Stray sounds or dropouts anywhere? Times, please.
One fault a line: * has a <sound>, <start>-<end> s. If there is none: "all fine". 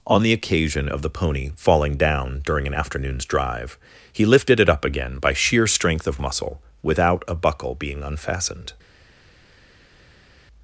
all fine